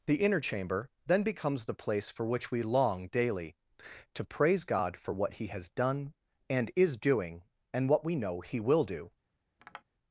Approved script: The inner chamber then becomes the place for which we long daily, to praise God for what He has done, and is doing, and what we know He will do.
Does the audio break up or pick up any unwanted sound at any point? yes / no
yes